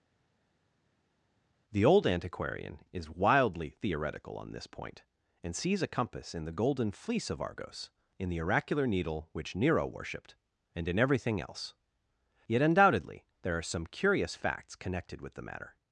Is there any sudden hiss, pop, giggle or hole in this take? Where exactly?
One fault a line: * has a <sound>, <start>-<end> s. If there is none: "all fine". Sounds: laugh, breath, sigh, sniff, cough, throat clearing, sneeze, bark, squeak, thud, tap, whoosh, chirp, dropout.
all fine